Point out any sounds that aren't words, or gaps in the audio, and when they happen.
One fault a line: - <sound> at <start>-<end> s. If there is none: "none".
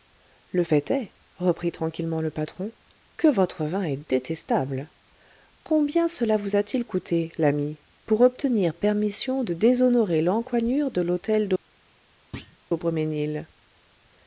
- thud at 12.3-12.6 s